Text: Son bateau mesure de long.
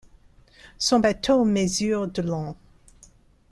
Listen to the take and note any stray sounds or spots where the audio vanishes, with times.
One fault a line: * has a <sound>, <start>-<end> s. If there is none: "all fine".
all fine